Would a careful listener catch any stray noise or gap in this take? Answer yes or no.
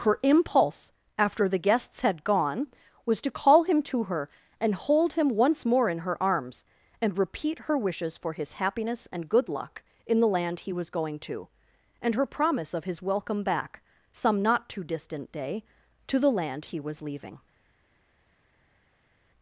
no